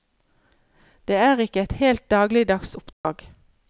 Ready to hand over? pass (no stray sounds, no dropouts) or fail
fail